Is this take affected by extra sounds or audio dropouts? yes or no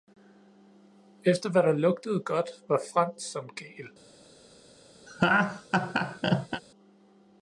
yes